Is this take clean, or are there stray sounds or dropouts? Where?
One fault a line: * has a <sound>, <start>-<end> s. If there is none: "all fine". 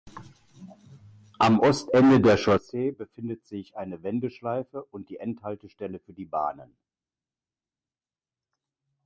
all fine